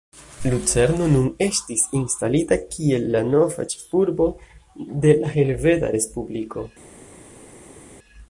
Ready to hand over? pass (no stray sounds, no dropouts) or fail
pass